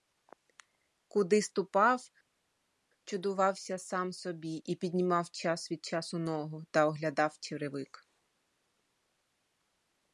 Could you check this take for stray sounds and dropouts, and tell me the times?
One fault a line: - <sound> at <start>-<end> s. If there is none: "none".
none